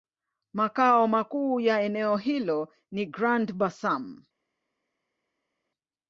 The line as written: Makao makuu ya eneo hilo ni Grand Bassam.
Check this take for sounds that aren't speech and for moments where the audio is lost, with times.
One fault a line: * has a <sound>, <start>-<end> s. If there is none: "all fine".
all fine